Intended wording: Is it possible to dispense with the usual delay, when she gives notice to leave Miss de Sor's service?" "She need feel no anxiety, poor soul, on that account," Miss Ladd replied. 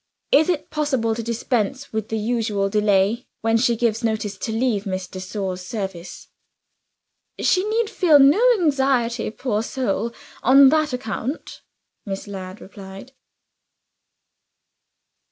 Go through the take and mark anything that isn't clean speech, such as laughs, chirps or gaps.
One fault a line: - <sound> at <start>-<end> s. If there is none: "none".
none